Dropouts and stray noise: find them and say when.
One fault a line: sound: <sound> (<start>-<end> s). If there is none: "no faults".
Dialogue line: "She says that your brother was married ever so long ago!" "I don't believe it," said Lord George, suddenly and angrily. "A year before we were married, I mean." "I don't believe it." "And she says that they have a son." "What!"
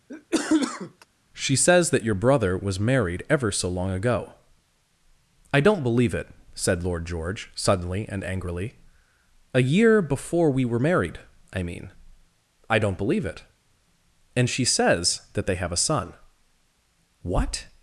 sound: cough (0.1-1.1 s)